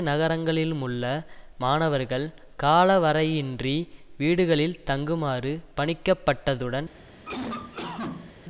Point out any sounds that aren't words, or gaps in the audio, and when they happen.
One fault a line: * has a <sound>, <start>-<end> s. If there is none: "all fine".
* has a cough, 7.2-8.4 s